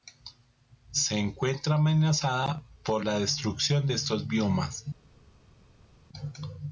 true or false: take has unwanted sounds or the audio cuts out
false